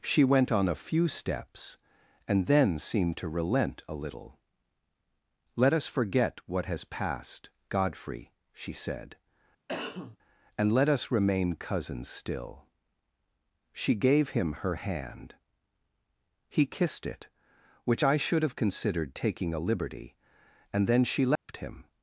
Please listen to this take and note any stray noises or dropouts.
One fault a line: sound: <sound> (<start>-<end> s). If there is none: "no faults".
sound: cough (9.7-10.2 s)
sound: dropout (21.4-21.5 s)